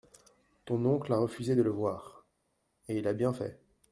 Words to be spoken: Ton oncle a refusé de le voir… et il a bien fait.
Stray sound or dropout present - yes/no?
no